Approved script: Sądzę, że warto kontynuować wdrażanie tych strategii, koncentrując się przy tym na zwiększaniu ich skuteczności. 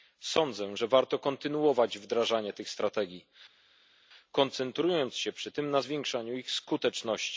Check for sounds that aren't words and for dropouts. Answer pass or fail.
pass